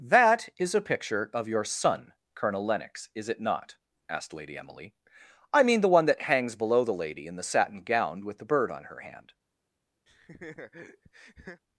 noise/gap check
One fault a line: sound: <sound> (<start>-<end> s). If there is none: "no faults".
sound: laugh (10.1-11.6 s)